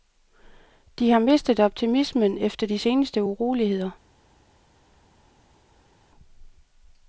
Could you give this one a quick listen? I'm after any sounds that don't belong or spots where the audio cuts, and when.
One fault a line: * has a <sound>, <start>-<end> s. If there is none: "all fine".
all fine